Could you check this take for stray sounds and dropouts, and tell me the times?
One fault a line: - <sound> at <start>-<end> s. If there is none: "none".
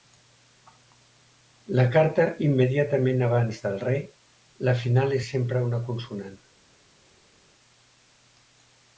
none